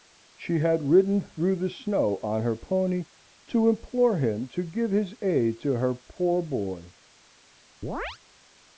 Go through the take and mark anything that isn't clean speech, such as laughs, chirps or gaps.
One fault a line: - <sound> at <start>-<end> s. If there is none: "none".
- chirp at 7.8-8.2 s